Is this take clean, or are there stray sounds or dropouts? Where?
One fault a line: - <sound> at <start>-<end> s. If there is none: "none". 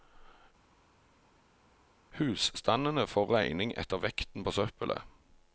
none